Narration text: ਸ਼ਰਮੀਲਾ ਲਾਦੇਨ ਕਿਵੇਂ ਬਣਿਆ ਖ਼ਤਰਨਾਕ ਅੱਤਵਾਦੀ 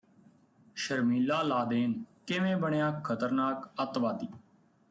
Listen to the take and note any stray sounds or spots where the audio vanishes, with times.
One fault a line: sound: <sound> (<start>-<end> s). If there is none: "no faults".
no faults